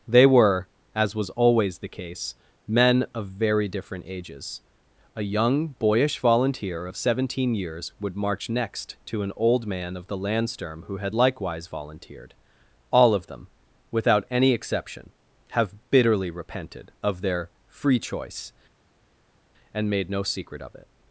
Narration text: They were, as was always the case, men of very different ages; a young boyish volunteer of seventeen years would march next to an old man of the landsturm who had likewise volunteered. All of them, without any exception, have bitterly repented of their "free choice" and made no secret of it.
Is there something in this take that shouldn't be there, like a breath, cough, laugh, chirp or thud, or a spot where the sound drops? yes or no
no